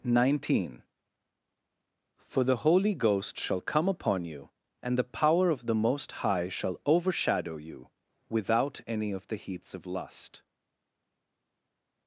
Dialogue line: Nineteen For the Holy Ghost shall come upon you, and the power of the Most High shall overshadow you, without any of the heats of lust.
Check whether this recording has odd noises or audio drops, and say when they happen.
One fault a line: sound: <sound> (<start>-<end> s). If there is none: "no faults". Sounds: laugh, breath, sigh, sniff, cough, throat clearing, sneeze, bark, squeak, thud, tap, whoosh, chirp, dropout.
no faults